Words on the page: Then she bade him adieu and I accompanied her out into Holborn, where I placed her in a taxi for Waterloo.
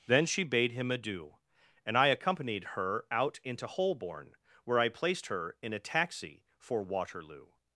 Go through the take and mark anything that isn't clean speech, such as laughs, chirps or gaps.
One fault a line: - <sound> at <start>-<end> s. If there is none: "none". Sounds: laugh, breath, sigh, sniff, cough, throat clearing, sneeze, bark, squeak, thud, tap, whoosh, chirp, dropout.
none